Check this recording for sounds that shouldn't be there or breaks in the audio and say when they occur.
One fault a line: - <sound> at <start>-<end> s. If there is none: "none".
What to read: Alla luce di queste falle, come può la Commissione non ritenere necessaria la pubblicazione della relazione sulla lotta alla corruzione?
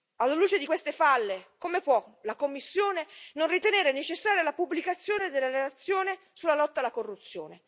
none